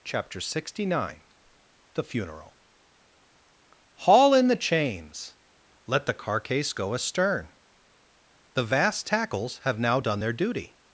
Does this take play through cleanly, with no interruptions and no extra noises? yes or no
yes